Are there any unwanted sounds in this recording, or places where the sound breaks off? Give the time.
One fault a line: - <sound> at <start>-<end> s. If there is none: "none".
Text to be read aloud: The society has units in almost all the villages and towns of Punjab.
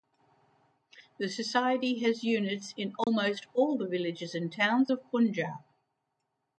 - dropout at 3.0-3.1 s